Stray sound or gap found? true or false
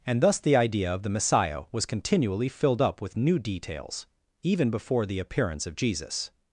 false